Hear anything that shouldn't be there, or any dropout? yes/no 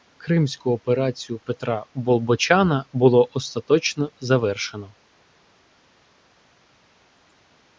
no